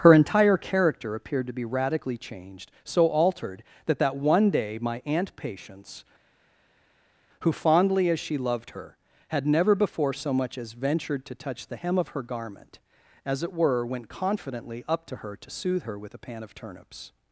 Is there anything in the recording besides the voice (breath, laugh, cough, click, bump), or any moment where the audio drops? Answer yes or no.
no